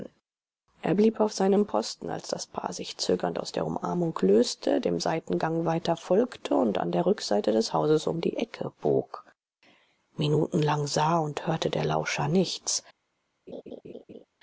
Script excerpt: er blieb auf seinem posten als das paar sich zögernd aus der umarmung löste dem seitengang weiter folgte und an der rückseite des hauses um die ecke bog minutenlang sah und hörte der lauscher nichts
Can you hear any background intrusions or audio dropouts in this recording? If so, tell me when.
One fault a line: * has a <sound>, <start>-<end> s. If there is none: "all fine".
* has a laugh, 13.5-14.3 s